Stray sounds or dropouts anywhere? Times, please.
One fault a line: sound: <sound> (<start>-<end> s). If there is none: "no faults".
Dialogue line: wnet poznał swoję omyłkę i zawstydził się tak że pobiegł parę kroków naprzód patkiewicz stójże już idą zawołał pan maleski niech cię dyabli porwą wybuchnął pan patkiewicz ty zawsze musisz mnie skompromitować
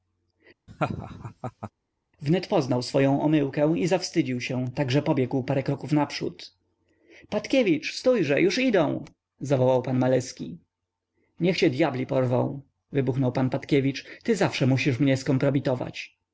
sound: laugh (0.7-1.7 s)